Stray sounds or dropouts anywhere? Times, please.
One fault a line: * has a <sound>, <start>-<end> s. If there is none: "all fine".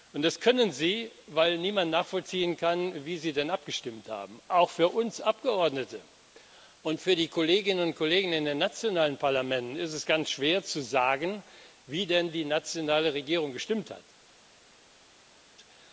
all fine